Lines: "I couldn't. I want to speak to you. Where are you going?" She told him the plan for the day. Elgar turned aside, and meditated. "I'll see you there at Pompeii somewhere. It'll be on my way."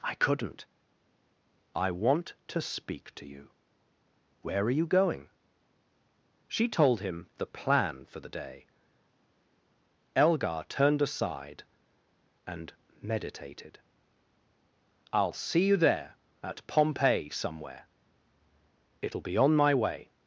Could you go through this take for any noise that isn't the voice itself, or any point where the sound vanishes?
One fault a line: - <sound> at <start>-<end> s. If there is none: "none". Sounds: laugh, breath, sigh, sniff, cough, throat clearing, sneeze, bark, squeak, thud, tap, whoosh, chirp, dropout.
none